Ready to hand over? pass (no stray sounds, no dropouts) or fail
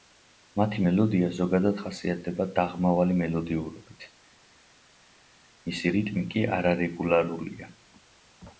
pass